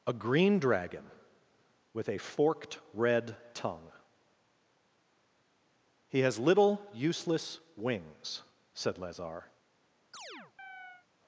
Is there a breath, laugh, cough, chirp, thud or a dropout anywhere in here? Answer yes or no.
yes